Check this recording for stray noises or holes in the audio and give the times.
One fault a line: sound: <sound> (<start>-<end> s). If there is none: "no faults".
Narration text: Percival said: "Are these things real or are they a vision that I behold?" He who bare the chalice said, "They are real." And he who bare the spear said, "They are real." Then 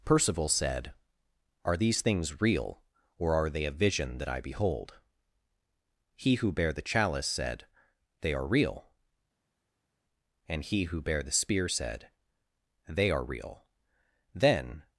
no faults